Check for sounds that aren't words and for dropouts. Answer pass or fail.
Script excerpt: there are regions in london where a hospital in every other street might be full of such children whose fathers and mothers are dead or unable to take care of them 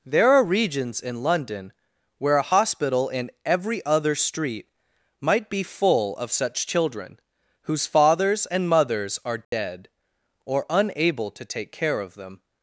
fail